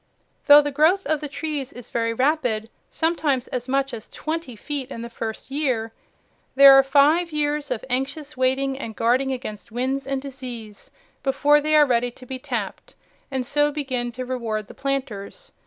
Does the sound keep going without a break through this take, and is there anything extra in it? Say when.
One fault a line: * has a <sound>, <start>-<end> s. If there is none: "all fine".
all fine